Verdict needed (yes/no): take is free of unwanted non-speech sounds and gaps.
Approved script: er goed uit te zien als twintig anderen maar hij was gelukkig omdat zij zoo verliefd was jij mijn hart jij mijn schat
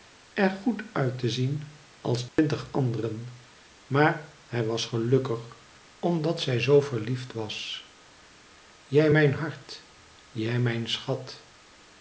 no